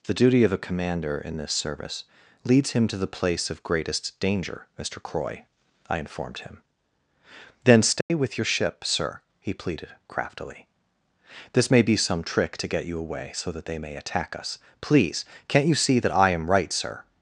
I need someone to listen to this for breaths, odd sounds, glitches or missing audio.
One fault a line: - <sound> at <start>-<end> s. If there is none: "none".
- dropout at 8.0-8.1 s